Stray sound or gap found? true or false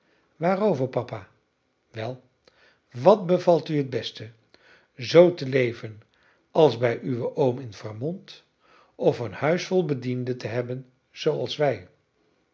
false